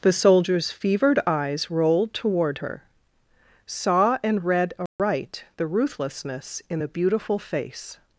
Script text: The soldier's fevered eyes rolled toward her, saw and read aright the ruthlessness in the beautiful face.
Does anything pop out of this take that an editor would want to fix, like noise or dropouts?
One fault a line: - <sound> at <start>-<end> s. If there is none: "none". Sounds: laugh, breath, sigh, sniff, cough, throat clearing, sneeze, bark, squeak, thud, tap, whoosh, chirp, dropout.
- dropout at 4.9-5.0 s